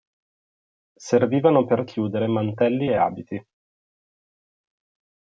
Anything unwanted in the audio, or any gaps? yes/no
no